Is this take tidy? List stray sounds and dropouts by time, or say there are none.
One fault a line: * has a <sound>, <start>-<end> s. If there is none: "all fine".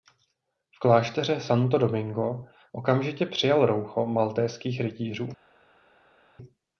all fine